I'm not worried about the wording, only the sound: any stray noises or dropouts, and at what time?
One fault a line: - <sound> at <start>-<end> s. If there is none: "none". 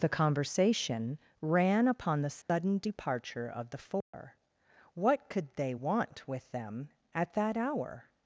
- dropout at 2.4-2.5 s
- dropout at 4.0-4.1 s